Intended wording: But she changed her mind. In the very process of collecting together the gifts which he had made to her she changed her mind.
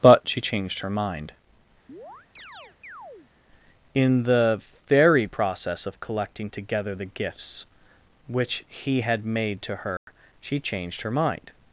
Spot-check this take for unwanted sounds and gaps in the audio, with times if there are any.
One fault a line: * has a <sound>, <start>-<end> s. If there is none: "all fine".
* has a chirp, 1.9-3.3 s
* has a dropout, 10.0-10.1 s